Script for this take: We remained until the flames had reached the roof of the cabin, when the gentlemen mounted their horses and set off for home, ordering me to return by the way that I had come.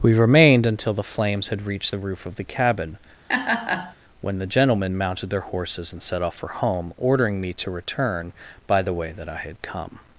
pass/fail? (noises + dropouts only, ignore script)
fail